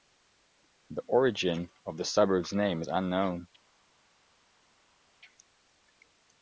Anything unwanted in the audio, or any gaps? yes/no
no